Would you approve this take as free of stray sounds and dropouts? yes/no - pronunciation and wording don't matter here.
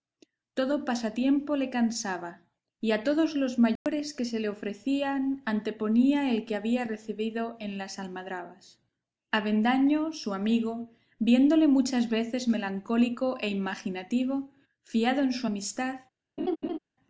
no